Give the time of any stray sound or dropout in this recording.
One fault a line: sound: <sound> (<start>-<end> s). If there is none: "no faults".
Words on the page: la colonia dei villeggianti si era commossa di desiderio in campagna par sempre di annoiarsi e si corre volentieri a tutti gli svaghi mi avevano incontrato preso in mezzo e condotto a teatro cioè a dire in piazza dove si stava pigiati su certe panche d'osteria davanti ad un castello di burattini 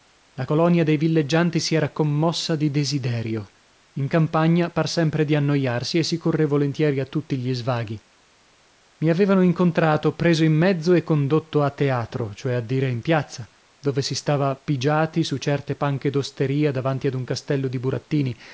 no faults